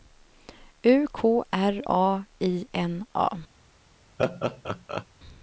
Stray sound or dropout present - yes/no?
yes